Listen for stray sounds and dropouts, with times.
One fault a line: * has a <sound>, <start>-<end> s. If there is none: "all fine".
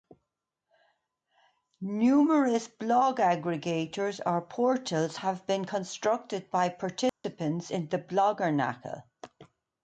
* has a dropout, 7.1-7.2 s